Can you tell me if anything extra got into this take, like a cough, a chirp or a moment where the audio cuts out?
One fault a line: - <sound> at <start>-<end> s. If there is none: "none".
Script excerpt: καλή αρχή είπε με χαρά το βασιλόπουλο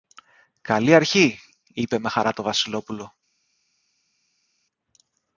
none